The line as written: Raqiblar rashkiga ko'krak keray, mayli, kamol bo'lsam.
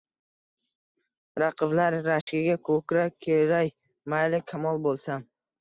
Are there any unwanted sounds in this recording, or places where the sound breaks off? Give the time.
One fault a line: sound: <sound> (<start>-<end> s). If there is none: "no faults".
sound: dropout (2.2-2.3 s)